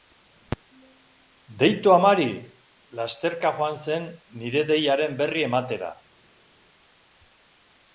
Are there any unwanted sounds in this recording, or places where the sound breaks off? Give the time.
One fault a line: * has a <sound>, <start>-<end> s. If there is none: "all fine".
all fine